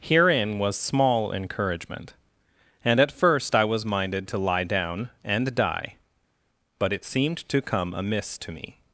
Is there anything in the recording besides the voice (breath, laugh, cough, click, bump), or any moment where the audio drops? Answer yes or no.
no